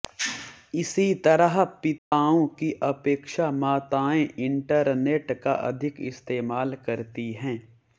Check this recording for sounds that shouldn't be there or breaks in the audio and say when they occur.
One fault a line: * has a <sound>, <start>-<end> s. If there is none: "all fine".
* has a dropout, 2.0-2.1 s